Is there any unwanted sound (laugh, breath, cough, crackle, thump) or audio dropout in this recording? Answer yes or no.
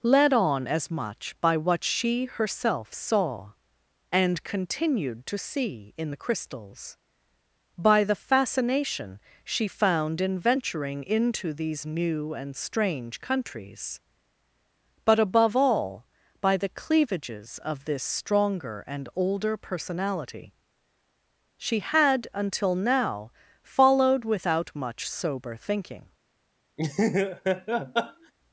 yes